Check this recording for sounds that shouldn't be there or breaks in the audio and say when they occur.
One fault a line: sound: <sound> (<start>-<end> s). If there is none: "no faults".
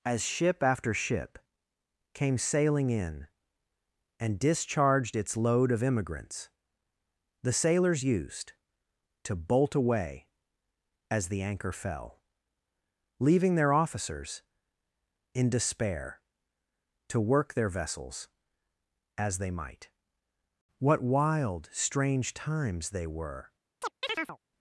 sound: chirp (23.8-24.4 s)